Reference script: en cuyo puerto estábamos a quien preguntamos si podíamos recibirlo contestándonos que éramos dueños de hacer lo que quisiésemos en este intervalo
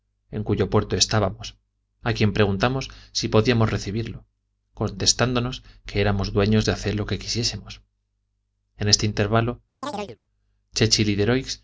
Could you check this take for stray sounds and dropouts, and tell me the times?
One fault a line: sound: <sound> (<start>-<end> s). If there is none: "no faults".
sound: chirp (9.8-10.2 s)